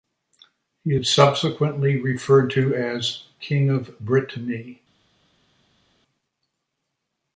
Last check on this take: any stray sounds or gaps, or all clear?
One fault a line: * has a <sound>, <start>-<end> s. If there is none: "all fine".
all fine